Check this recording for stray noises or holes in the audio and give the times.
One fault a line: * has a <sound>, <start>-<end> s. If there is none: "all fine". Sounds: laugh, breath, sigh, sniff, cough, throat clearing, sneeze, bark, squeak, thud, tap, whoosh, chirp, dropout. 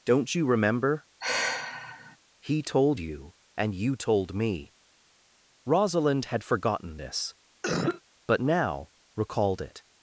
* has a sigh, 1.2-2.2 s
* has a cough, 7.6-8.0 s